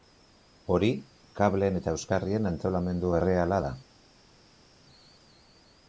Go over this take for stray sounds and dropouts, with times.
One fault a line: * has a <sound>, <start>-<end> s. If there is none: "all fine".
all fine